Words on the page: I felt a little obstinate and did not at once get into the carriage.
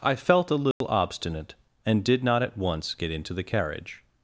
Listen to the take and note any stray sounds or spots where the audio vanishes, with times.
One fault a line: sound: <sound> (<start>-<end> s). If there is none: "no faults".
sound: dropout (0.7-0.8 s)